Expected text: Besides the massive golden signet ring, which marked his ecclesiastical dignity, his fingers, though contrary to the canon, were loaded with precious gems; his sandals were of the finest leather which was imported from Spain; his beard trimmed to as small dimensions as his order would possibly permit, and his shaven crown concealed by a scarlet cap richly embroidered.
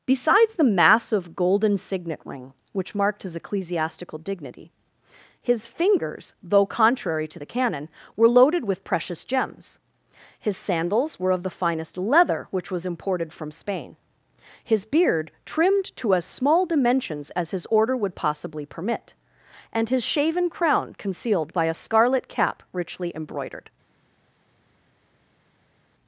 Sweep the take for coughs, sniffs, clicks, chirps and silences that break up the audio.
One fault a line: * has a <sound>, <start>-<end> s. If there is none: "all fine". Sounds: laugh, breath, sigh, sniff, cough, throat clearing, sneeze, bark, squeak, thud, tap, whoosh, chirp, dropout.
all fine